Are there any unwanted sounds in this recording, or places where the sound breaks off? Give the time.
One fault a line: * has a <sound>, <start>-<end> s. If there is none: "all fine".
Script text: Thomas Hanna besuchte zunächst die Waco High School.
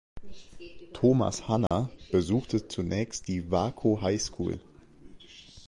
* has a dropout, 1.7-1.7 s